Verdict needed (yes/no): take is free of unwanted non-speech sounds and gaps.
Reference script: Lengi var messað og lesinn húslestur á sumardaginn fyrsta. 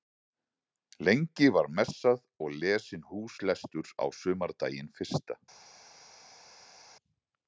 yes